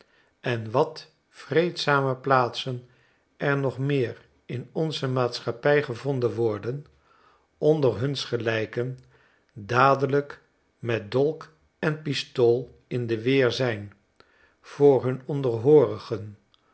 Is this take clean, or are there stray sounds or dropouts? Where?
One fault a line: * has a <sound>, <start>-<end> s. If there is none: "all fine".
all fine